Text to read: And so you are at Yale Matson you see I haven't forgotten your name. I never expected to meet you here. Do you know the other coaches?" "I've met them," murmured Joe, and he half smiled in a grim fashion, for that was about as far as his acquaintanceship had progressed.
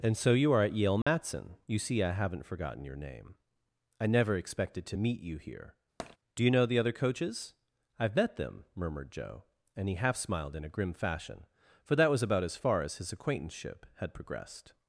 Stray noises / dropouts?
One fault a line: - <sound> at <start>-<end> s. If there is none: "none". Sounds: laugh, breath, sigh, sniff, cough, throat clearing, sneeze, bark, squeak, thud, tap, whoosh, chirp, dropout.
- dropout at 1.0-1.1 s
- tap at 6.0-6.2 s